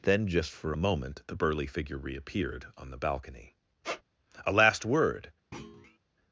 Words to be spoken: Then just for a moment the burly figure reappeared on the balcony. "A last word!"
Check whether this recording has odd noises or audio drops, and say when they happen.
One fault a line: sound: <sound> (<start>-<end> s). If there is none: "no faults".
sound: squeak (3.8-4.0 s)
sound: thud (5.5-6.0 s)